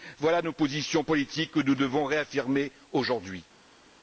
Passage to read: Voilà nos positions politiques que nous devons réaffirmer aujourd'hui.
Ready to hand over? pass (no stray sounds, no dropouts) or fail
pass